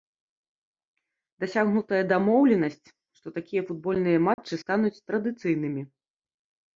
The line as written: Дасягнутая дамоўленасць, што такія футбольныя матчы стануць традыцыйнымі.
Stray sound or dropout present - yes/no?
yes